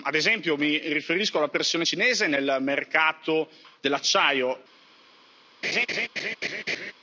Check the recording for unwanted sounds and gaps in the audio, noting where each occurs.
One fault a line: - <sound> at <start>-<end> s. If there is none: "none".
- laugh at 5.6-6.9 s